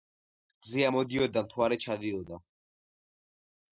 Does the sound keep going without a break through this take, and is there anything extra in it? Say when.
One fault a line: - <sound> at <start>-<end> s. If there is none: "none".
none